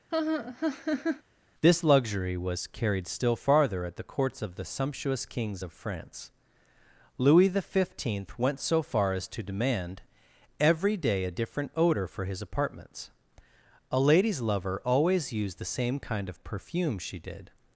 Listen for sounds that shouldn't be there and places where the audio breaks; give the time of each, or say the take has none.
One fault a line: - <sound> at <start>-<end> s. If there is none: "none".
- laugh at 0.1-1.2 s